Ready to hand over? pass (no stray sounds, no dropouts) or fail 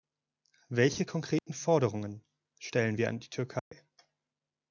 fail